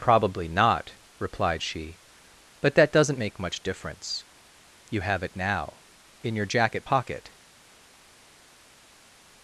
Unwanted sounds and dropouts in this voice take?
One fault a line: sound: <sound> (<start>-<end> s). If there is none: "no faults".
no faults